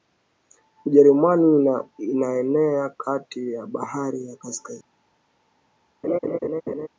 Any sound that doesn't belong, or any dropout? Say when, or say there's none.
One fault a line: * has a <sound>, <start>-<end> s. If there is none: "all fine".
* has a laugh, 6.0-6.9 s